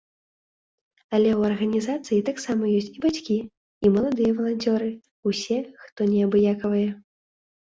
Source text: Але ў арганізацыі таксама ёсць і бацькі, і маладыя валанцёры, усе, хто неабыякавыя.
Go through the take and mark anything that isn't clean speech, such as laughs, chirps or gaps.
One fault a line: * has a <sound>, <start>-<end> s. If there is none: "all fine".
all fine